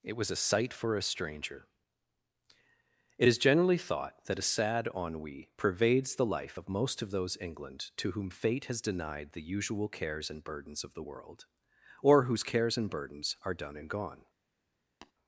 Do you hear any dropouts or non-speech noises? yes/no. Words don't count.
yes